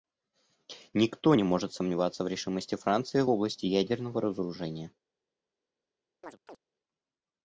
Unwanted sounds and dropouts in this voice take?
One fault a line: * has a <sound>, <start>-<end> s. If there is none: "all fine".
* has a chirp, 6.2-6.6 s